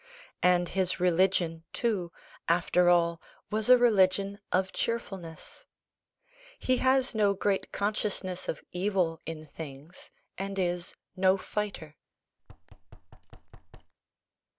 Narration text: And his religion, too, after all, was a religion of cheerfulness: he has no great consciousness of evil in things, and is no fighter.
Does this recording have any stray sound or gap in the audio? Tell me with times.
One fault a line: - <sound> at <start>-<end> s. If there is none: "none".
- thud at 12.4-13.9 s